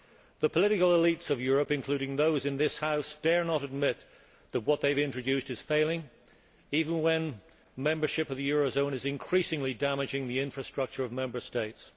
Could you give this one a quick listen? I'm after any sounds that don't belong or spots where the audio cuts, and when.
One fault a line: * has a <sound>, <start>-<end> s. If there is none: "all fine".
all fine